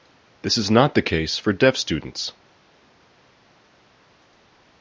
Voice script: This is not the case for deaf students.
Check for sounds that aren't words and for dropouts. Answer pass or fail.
pass